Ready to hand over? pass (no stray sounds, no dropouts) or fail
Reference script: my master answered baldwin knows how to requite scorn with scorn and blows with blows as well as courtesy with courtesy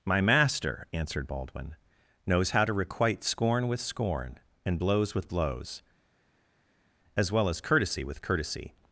pass